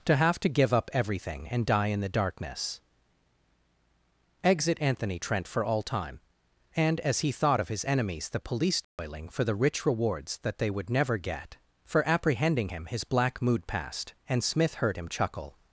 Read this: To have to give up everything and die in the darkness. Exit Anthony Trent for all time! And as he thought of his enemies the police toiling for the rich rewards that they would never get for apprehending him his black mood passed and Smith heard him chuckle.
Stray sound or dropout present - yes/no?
yes